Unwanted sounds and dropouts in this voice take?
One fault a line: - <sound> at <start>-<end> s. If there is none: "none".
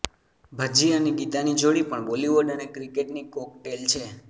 none